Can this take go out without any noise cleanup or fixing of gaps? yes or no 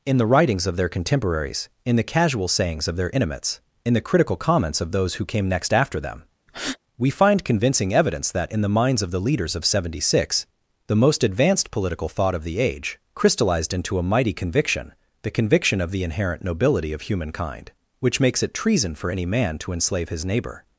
no